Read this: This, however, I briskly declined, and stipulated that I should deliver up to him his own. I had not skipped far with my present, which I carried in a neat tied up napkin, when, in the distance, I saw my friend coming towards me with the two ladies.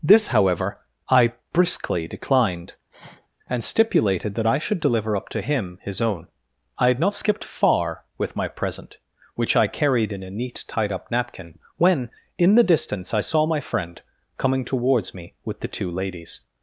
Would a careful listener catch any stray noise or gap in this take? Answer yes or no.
yes